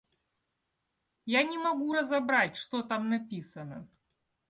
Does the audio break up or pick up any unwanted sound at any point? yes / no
no